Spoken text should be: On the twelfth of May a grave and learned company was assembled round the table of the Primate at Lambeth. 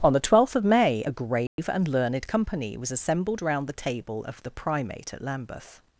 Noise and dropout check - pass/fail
fail